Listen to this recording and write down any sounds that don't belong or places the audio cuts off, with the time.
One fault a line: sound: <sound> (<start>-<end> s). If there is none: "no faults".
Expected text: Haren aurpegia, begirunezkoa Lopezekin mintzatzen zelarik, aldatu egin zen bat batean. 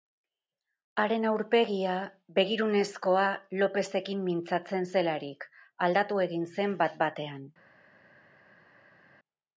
no faults